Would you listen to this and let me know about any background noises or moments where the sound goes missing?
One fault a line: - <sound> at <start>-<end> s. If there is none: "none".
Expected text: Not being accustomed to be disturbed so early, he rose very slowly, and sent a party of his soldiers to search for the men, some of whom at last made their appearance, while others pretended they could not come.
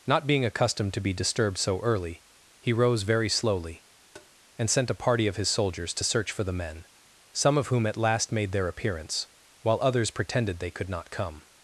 - tap at 4.1-4.3 s